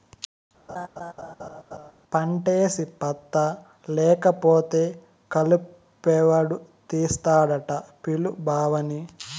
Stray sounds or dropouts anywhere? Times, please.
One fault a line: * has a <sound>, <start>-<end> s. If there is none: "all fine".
* has a laugh, 0.7-1.9 s